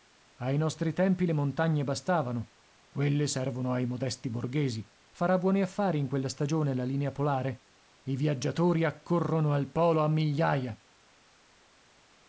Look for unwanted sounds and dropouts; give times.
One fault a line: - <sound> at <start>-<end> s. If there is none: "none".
none